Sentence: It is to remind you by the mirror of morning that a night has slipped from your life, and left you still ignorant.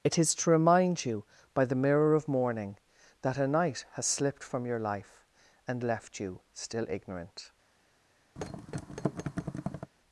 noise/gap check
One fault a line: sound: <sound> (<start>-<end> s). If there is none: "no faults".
sound: thud (8.4-9.9 s)